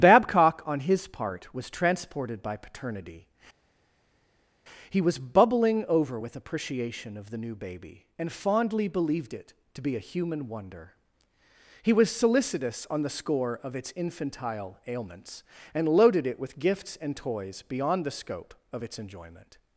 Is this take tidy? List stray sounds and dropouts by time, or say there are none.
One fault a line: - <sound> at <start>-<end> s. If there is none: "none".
none